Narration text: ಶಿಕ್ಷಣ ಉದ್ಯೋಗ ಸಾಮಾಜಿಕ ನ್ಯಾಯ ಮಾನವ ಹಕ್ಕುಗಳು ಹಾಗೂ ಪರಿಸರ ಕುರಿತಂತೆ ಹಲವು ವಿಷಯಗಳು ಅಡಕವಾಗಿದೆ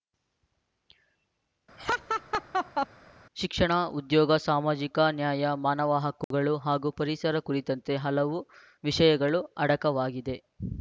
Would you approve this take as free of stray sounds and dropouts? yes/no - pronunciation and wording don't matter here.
no